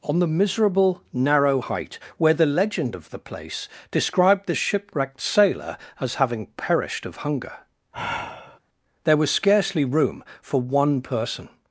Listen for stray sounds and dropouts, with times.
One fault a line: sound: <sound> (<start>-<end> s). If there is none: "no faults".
sound: sigh (7.9-8.6 s)